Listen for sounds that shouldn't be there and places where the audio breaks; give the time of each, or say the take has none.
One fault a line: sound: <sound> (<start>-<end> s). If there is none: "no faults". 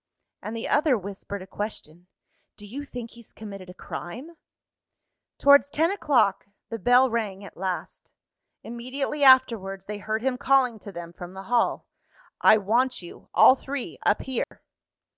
sound: dropout (14.4-14.5 s)